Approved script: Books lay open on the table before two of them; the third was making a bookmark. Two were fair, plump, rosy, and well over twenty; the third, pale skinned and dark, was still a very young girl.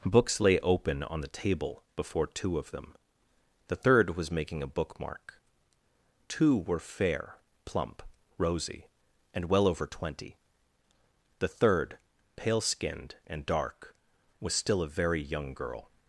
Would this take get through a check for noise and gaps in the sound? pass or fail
pass